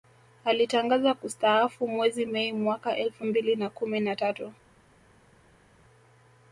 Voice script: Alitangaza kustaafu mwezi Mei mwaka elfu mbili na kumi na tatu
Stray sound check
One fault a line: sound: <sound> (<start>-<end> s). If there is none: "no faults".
no faults